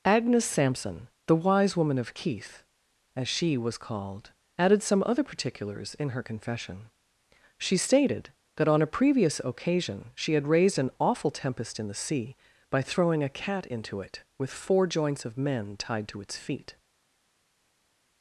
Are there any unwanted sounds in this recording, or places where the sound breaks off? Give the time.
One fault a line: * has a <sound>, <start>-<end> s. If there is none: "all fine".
all fine